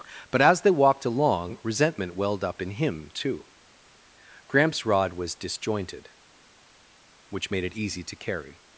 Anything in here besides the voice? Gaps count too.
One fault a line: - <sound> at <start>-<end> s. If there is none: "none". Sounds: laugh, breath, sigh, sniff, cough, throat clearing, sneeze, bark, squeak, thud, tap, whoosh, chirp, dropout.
none